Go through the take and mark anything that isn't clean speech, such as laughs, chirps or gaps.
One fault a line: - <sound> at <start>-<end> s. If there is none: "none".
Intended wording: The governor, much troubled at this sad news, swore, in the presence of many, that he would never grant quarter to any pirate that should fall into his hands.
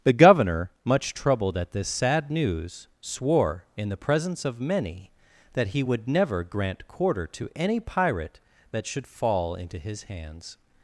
none